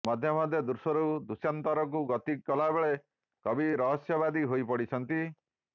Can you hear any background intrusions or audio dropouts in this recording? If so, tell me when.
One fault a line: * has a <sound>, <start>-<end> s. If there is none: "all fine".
all fine